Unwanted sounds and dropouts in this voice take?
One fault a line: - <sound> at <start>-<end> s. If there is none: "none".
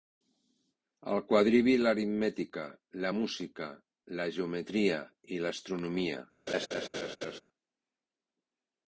- laugh at 6.5-7.4 s